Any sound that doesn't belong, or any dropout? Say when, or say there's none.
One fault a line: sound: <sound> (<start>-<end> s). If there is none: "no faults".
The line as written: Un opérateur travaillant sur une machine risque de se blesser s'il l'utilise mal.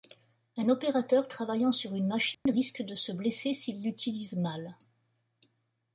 sound: dropout (2.3-2.5 s)